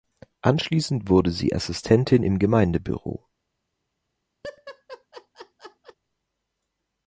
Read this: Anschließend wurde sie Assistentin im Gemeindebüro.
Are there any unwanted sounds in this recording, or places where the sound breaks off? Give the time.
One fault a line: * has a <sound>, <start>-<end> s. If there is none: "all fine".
* has a laugh, 4.4-6.0 s